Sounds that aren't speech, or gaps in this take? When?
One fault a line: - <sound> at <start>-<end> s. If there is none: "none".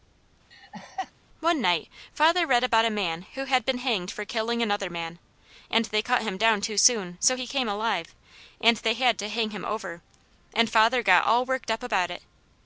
- laugh at 0.5-1.1 s